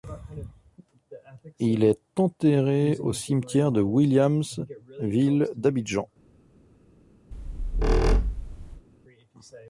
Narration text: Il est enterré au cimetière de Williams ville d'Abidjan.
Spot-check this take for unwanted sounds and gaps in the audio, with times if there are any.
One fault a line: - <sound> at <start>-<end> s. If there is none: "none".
- squeak at 7.3-8.9 s